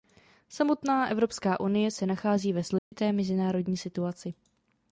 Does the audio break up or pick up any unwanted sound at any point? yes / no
yes